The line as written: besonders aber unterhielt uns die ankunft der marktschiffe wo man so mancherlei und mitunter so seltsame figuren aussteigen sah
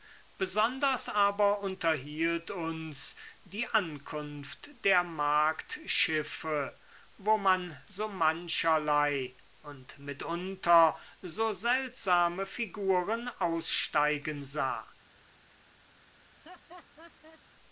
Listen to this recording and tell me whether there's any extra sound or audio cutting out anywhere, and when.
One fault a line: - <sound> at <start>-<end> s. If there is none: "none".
- laugh at 16.2-17.4 s